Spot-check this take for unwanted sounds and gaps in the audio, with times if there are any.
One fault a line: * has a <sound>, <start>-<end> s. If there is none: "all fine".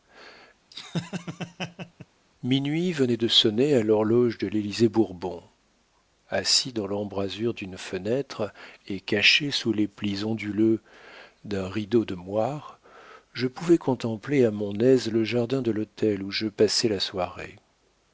* has a laugh, 0.7-2.1 s